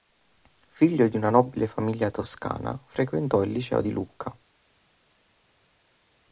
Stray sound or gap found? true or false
false